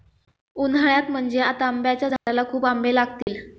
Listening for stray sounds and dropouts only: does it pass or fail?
fail